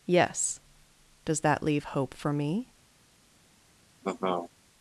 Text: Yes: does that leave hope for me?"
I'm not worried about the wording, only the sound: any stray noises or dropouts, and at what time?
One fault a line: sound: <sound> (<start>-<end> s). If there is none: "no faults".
sound: laugh (4.0-4.5 s)